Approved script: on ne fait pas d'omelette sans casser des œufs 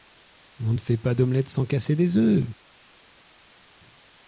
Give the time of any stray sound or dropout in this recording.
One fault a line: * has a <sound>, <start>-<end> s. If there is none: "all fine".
all fine